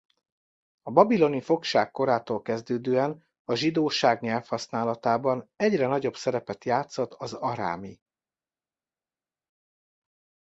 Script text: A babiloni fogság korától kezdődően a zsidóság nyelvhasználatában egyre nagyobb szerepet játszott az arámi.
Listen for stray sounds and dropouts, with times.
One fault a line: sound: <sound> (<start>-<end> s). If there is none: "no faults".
no faults